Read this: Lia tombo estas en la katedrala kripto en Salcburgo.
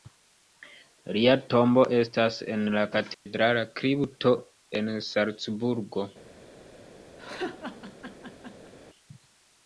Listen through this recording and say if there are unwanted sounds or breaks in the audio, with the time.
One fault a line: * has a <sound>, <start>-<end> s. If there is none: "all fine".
* has a dropout, 3.1-3.3 s
* has a laugh, 7.2-8.7 s